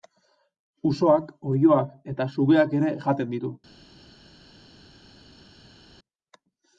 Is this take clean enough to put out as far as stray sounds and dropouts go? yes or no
yes